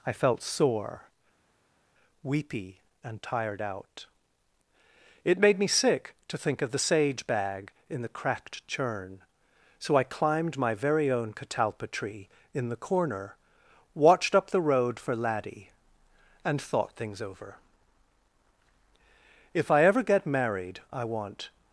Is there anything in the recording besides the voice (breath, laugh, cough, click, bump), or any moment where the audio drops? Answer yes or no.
no